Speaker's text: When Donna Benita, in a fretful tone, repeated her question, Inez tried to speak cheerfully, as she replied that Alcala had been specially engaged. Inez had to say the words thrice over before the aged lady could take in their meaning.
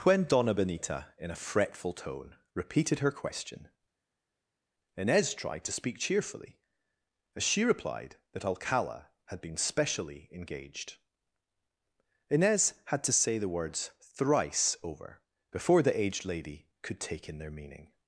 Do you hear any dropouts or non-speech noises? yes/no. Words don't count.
no